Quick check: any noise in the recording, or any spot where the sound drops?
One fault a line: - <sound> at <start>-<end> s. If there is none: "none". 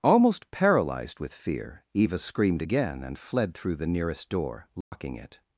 - dropout at 4.8-4.9 s